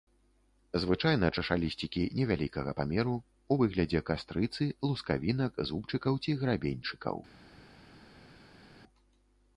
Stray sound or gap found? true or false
false